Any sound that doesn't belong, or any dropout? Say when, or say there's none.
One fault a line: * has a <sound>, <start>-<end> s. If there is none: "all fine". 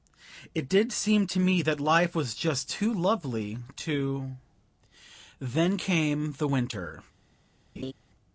* has a laugh, 7.8-7.9 s